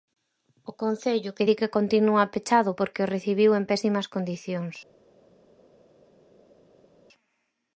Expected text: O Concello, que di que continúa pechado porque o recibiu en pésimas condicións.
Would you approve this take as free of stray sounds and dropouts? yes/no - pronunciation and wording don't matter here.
yes